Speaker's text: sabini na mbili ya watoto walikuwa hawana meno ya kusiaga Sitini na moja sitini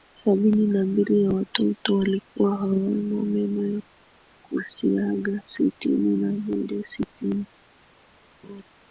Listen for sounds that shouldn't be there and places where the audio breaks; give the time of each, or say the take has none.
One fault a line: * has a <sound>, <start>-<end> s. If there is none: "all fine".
* has a laugh, 8.4-8.6 s